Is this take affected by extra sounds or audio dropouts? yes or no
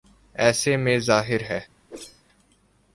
yes